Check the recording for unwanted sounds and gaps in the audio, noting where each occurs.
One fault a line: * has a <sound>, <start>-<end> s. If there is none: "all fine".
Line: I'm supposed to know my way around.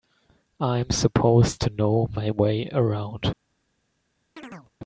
* has a chirp, 4.4-4.7 s